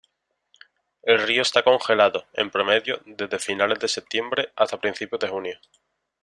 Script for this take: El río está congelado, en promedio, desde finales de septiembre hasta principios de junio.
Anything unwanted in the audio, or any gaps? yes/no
no